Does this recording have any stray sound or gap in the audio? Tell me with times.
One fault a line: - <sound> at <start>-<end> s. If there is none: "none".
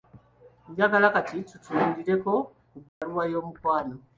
- dropout at 2.9-3.0 s